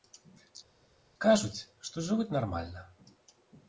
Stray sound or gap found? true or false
false